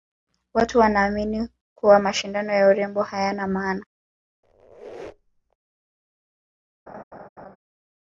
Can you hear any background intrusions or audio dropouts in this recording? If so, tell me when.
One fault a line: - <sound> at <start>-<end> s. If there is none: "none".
- squeak at 4.4-5.6 s
- laugh at 6.9-7.6 s